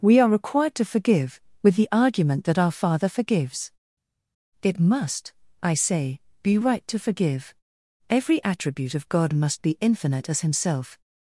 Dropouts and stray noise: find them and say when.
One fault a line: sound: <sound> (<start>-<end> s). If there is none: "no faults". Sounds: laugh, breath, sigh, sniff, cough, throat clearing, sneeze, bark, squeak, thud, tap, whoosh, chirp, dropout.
no faults